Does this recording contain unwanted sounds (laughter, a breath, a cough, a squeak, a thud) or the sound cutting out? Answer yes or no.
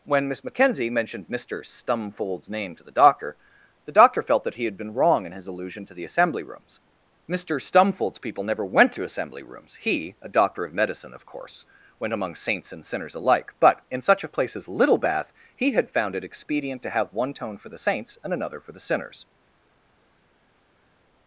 no